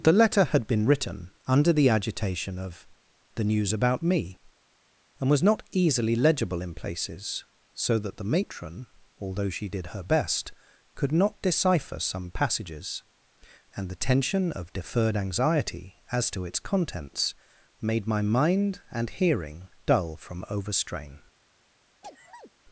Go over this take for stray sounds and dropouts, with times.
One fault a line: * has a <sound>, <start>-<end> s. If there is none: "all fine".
* has a sneeze, 22.0-22.5 s